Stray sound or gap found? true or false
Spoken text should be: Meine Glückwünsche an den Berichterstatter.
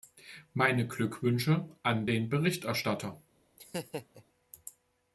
true